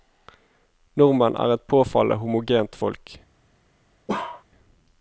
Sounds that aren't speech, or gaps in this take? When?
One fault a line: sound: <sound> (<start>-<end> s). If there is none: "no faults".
sound: bark (4.1-4.4 s)